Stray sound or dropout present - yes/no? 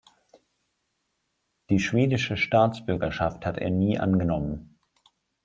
no